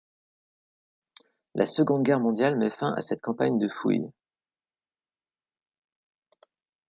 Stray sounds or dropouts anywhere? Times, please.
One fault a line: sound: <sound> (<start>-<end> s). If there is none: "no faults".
no faults